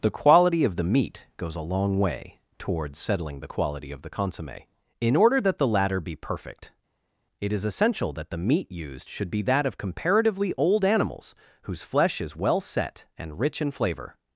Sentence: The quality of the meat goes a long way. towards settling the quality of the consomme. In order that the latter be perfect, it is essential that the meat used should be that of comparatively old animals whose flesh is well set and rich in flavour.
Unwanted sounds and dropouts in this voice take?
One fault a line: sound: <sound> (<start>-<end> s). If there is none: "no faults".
no faults